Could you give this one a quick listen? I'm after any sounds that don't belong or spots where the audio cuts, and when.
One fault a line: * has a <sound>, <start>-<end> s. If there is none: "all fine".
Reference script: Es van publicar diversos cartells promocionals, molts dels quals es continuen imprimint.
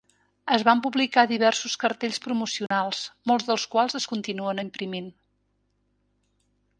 * has a dropout, 2.7-2.7 s